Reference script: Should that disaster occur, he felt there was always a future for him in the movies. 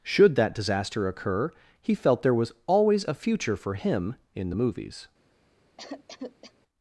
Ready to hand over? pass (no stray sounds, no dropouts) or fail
fail